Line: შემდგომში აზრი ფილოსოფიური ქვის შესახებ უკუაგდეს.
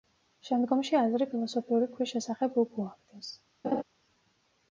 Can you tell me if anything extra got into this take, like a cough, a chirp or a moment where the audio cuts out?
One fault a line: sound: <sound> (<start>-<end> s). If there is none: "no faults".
sound: laugh (3.6-3.8 s)